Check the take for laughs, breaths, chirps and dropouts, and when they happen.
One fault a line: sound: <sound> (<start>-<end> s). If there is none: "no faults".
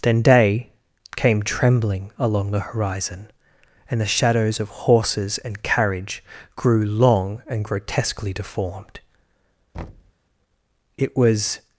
sound: thud (9.7-10.1 s)